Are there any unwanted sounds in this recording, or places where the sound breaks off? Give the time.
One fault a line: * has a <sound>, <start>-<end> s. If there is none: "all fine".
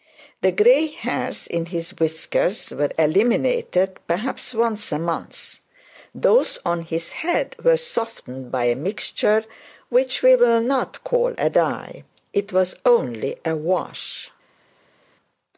all fine